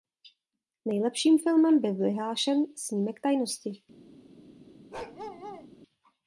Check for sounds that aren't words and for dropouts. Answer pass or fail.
fail